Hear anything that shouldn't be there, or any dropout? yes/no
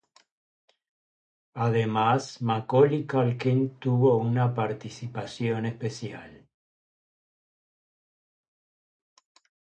no